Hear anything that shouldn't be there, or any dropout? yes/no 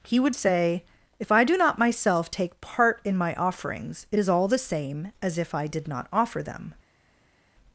no